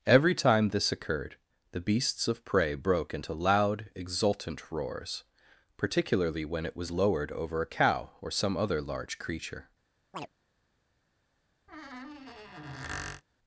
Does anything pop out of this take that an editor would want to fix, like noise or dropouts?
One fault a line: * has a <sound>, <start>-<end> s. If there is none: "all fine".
* has a chirp, 10.1-10.3 s
* has a squeak, 11.7-13.2 s